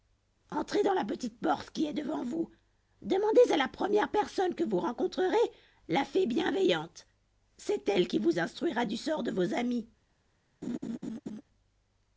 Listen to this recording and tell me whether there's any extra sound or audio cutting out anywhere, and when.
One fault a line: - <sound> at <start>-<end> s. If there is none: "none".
- laugh at 10.6-11.4 s